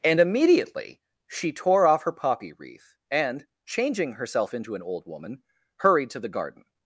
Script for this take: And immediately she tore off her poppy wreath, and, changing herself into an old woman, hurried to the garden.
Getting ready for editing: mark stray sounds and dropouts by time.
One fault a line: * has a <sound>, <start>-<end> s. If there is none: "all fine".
all fine